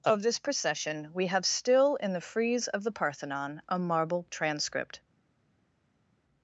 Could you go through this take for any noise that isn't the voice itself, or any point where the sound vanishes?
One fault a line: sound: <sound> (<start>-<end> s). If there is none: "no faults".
no faults